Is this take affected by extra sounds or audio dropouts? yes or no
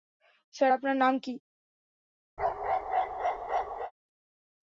yes